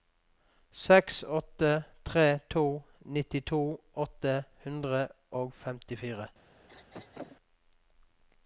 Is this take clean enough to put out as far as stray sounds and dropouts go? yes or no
no